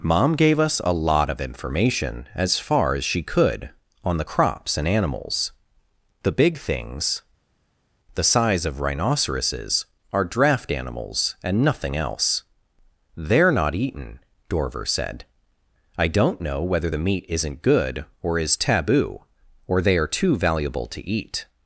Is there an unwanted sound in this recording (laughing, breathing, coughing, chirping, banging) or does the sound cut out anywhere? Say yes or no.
no